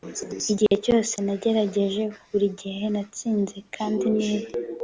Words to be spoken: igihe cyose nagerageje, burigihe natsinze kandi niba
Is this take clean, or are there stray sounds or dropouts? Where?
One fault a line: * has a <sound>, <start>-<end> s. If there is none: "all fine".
* has a dropout, 0.7-0.7 s